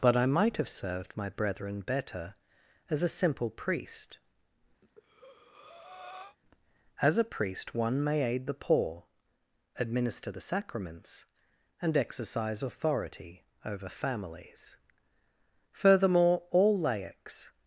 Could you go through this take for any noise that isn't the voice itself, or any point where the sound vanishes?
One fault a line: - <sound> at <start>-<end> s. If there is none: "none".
- breath at 4.8-6.4 s